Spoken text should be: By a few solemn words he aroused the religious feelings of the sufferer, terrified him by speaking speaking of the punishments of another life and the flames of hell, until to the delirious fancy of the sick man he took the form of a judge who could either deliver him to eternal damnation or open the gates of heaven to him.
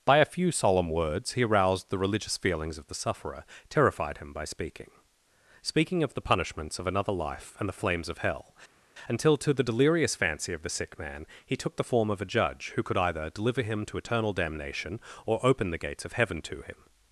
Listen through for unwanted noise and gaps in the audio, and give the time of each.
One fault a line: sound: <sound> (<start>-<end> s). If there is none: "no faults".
no faults